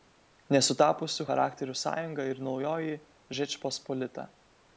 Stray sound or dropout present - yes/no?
no